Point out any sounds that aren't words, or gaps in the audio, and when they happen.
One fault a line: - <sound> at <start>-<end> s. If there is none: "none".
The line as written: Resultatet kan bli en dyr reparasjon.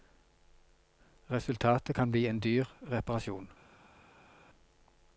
none